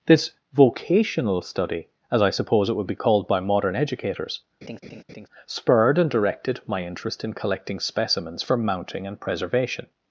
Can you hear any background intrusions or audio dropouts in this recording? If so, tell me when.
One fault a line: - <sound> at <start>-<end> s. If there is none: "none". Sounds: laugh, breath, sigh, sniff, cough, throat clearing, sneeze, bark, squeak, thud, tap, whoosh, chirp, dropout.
- laugh at 4.6-5.3 s